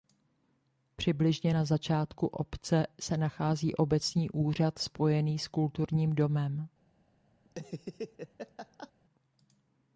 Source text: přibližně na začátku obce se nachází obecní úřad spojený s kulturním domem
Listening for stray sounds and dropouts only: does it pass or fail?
fail